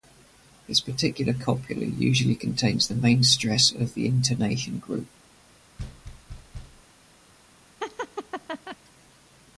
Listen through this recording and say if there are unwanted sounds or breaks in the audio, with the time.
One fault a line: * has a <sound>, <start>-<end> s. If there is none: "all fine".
* has a thud, 5.8-6.8 s
* has a laugh, 7.8-8.8 s